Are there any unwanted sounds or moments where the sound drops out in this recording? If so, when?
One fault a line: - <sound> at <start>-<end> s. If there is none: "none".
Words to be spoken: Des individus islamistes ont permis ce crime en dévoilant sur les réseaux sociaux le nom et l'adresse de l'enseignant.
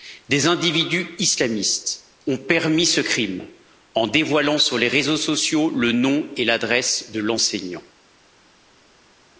none